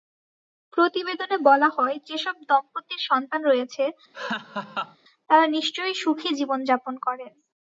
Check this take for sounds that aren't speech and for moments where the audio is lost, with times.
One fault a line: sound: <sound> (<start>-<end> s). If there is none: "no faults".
sound: laugh (4.1-5.0 s)